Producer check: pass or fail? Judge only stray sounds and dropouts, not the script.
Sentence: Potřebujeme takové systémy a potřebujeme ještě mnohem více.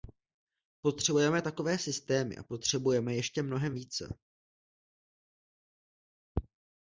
pass